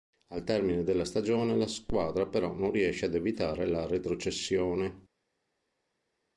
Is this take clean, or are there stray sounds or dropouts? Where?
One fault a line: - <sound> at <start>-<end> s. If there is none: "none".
none